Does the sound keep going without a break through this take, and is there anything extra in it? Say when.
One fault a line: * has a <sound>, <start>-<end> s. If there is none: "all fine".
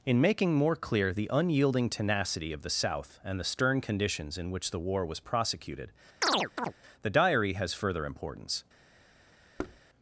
* has a chirp, 6.2-6.7 s
* has a thud, 9.6-9.8 s